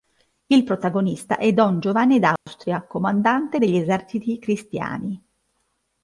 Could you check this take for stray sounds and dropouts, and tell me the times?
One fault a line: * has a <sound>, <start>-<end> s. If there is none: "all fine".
* has a dropout, 2.4-2.5 s